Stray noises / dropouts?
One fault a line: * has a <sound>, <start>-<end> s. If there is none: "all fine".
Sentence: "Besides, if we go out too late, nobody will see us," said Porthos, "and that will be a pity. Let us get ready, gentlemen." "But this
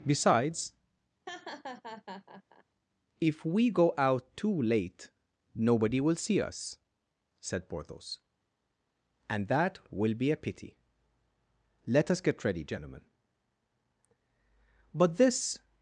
* has a laugh, 1.3-2.6 s